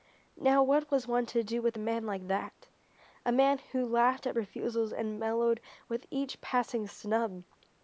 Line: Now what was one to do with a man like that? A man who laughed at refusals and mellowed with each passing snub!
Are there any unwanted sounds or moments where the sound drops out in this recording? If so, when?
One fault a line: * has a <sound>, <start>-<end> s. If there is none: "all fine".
all fine